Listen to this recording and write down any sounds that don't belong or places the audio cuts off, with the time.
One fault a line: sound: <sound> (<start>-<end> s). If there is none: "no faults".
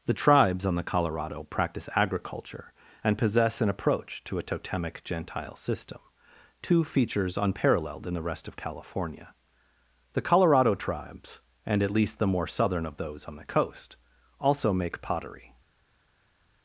no faults